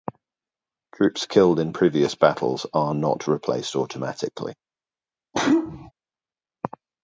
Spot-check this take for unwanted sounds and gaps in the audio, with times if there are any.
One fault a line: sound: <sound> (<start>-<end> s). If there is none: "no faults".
sound: sneeze (5.3-5.9 s)